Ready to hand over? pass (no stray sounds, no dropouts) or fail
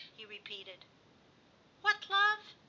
pass